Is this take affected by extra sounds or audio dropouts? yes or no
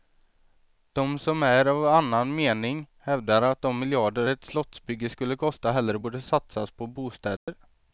yes